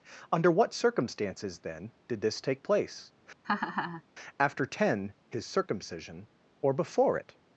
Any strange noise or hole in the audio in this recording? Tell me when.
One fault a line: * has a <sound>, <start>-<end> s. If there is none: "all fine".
* has a laugh, 3.4-4.0 s